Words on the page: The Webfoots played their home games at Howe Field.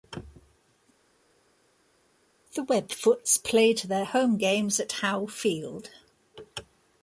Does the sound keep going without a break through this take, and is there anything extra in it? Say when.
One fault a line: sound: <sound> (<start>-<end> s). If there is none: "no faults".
no faults